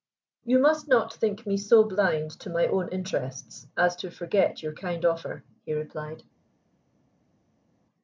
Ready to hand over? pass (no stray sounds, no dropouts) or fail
pass